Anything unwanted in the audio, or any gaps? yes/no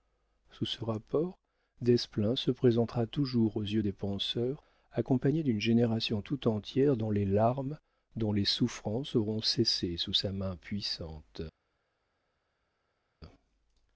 no